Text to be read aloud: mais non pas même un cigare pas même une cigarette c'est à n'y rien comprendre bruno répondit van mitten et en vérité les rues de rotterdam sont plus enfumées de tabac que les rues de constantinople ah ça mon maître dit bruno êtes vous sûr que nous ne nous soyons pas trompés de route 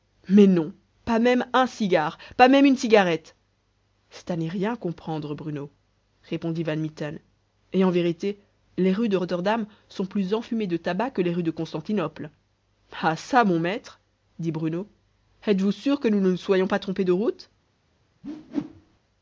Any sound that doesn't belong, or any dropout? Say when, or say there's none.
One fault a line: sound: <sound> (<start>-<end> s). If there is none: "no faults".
sound: whoosh (18.2-19.0 s)